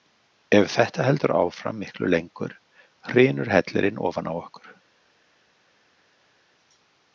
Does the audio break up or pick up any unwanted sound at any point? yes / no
no